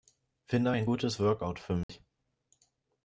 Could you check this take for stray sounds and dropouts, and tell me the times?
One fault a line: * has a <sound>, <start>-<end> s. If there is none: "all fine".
* has a dropout, 1.8-1.9 s